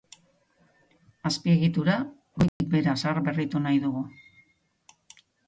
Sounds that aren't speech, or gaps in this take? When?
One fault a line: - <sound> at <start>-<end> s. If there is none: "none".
- dropout at 2.5-2.6 s